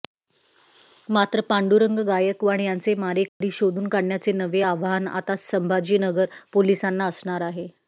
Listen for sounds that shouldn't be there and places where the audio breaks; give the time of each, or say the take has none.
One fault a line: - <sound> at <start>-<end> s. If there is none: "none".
- dropout at 3.3-3.4 s